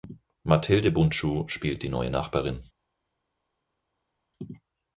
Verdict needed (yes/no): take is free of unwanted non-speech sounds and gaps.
yes